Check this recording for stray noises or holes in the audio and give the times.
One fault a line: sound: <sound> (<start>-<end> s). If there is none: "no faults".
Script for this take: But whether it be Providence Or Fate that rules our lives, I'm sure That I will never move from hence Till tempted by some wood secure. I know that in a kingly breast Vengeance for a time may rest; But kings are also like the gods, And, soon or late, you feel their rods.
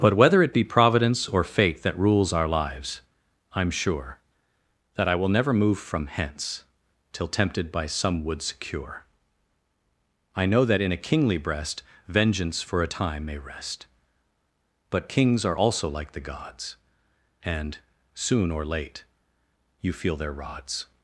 no faults